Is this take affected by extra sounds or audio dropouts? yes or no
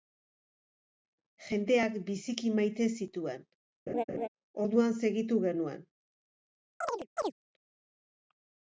yes